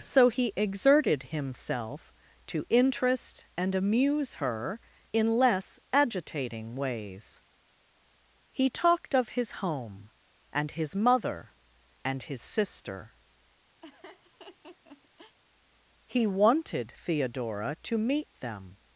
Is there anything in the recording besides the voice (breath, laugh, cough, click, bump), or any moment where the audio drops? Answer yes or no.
yes